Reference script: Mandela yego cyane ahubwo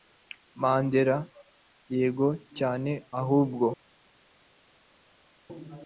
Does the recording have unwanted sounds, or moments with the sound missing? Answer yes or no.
no